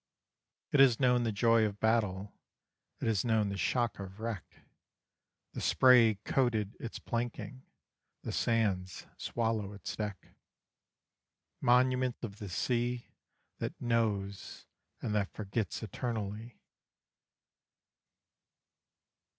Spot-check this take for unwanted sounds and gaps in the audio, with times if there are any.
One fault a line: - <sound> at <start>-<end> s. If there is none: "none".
none